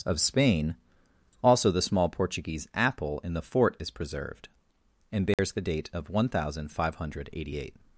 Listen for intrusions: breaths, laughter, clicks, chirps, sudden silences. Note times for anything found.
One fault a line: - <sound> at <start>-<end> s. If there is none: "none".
- dropout at 5.3-5.4 s